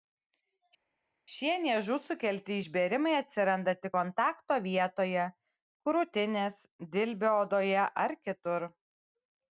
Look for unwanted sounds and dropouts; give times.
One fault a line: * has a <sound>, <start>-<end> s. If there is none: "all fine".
all fine